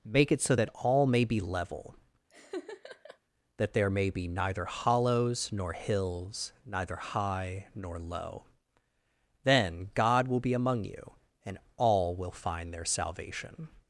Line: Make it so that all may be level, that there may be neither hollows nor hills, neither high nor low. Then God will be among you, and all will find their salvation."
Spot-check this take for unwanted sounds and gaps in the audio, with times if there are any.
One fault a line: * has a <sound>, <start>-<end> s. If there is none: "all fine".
* has a laugh, 2.3-3.2 s